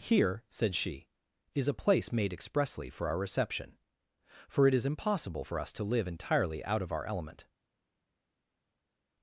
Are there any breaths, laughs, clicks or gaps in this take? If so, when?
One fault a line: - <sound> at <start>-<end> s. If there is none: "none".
none